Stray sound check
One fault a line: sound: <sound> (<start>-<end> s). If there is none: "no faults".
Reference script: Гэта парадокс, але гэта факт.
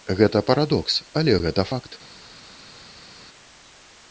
no faults